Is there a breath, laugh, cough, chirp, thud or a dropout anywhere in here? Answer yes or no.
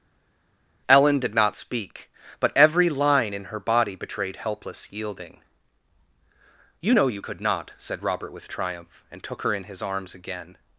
no